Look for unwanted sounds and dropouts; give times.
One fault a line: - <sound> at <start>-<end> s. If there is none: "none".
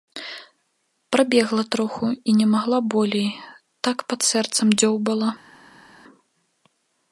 none